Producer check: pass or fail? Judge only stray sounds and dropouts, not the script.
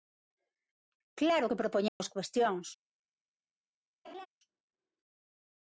fail